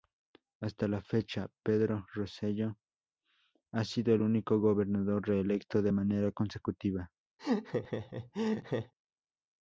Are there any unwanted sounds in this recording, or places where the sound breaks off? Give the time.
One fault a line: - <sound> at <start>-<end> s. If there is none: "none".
- laugh at 7.4-8.9 s